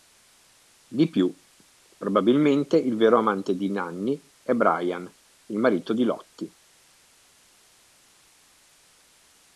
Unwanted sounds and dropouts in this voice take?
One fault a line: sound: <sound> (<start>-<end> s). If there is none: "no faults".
no faults